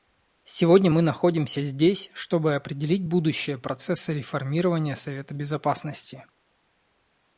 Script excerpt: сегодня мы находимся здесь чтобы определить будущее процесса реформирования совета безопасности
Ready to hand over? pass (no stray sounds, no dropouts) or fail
pass